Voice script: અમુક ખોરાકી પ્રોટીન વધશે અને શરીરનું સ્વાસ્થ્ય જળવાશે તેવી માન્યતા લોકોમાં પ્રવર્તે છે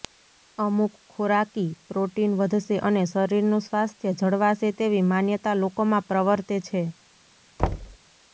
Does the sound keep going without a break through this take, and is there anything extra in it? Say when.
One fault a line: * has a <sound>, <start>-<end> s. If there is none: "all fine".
* has a thud, 7.6-8.0 s